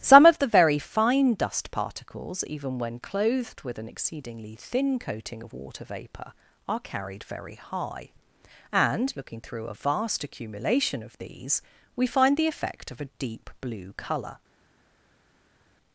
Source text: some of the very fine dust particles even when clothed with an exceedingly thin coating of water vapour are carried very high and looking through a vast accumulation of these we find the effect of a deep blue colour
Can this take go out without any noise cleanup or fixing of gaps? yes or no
yes